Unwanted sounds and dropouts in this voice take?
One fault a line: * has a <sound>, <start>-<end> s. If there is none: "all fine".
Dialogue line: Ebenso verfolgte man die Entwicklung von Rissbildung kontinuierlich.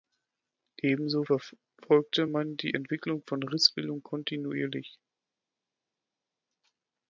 all fine